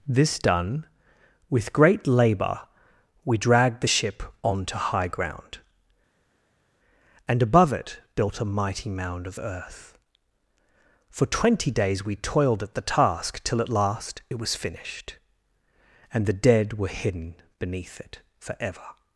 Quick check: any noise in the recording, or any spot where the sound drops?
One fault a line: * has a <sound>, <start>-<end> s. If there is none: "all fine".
all fine